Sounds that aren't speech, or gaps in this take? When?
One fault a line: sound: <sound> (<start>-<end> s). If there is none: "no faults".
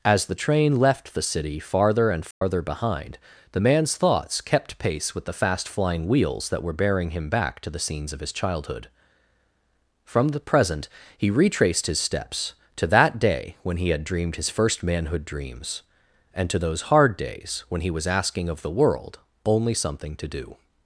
sound: dropout (2.3-2.4 s)